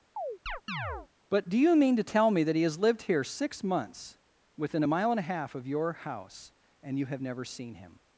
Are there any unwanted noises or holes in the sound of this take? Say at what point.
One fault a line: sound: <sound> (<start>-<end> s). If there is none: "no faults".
sound: chirp (0.2-1.1 s)